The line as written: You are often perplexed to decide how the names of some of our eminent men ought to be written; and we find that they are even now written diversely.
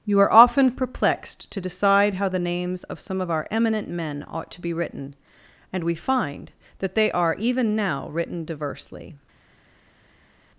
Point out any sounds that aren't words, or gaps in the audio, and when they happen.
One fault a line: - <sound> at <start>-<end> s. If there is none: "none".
none